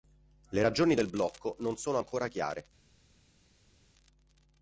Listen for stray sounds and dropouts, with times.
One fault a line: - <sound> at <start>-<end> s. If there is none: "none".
none